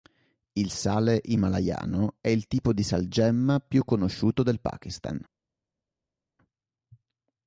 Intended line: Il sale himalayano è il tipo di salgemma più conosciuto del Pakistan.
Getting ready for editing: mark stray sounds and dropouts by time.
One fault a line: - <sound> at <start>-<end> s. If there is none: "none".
none